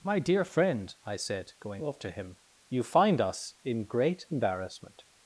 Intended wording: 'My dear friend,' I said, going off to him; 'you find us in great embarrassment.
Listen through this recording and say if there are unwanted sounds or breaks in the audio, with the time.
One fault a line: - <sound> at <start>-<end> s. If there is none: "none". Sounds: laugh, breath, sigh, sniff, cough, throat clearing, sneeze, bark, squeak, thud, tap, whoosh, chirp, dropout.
none